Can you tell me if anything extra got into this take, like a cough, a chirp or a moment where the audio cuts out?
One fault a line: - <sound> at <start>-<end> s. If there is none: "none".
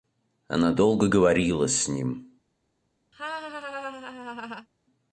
- laugh at 3.1-4.7 s